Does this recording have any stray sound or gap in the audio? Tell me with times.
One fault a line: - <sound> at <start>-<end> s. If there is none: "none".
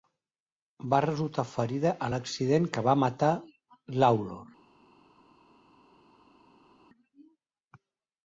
none